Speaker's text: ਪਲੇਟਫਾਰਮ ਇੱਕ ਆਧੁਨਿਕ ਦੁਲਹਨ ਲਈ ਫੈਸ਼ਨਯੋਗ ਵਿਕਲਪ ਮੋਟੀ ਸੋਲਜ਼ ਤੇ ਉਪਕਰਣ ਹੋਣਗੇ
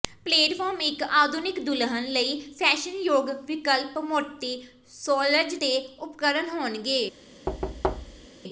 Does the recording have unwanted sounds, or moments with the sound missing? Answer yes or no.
yes